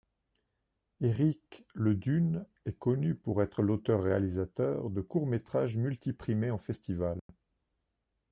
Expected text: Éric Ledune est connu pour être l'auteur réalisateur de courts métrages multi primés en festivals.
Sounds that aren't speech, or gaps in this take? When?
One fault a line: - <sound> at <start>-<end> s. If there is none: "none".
- dropout at 7.2-7.3 s